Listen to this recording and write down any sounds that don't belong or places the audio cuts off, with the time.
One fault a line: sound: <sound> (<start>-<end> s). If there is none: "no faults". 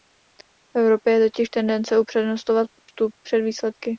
sound: dropout (2.8-2.9 s)